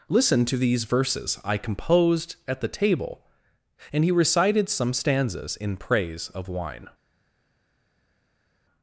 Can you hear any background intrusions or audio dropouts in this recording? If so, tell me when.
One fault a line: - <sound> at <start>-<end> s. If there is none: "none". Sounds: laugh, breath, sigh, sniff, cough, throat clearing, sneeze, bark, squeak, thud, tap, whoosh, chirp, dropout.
none